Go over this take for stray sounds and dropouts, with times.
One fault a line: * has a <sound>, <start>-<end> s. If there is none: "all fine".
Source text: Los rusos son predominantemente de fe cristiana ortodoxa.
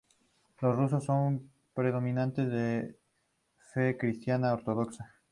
all fine